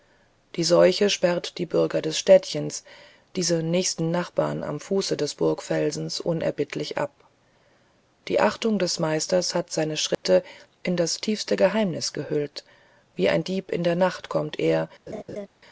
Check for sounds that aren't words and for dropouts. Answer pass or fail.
fail